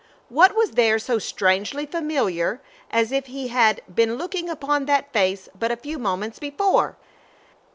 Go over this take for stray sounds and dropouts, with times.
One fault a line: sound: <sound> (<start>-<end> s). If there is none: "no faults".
no faults